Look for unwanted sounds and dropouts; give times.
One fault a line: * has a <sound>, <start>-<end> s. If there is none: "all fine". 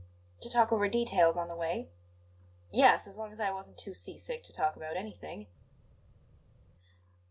all fine